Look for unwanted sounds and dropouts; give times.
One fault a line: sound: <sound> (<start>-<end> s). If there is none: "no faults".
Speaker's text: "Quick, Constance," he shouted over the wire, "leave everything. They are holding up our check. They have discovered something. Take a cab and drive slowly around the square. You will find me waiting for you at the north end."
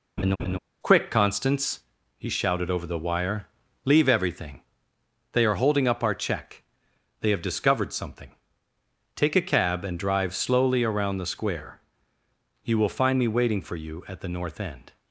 sound: laugh (0.2-0.6 s)